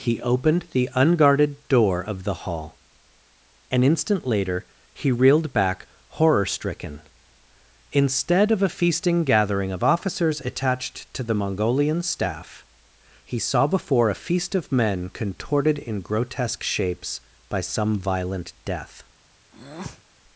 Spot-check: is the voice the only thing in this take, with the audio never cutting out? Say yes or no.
no